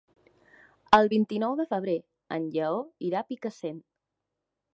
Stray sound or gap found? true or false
false